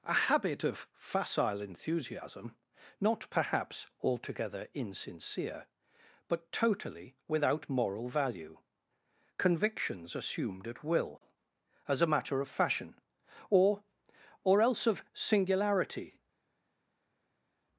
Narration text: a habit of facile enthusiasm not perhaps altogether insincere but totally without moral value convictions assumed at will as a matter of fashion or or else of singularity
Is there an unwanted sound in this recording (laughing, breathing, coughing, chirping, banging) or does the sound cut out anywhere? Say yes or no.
no